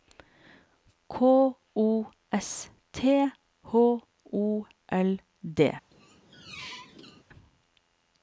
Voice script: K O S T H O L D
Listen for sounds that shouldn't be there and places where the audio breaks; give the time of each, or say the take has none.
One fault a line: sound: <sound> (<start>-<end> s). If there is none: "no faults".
sound: squeak (5.9-7.2 s)